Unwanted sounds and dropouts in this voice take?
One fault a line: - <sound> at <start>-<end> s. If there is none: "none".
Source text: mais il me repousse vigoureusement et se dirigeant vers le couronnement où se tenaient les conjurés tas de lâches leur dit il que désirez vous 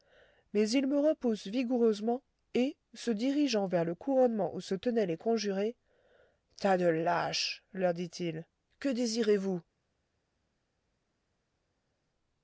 none